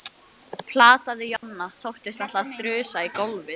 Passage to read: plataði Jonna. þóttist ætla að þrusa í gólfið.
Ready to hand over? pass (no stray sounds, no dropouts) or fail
fail